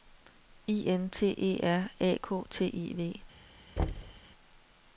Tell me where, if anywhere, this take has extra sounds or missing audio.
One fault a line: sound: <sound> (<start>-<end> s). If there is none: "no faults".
sound: thud (3.8-4.2 s)